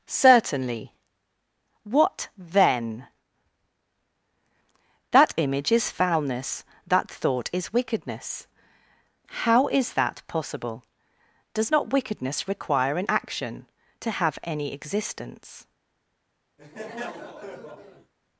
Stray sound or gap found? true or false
true